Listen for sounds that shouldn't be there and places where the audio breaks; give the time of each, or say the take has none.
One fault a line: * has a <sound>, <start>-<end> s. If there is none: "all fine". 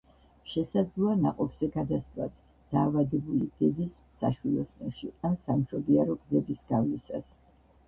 all fine